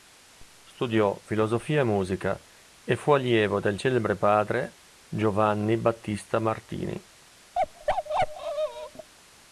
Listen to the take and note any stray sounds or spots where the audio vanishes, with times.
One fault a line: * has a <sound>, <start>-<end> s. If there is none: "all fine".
* has a bark, 7.5-9.1 s